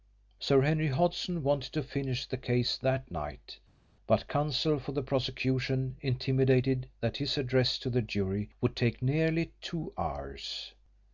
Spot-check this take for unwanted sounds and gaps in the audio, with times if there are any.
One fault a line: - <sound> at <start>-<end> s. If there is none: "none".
none